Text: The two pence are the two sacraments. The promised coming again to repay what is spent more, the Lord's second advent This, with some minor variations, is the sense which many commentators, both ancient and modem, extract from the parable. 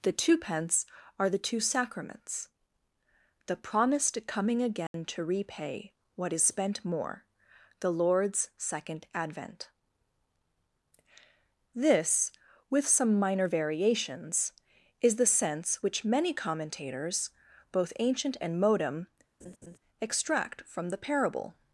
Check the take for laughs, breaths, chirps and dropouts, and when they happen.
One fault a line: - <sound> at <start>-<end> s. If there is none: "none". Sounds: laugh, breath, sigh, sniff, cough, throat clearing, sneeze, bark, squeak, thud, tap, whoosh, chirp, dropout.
- dropout at 4.9-4.9 s
- laugh at 19.4-19.8 s